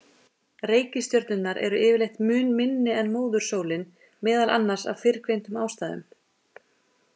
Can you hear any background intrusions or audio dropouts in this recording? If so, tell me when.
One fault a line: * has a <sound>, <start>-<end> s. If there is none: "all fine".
all fine